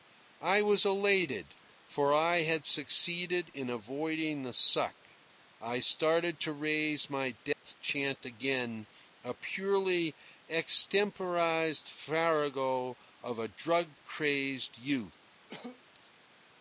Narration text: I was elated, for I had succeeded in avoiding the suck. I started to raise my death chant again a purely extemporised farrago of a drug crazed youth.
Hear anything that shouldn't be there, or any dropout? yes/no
yes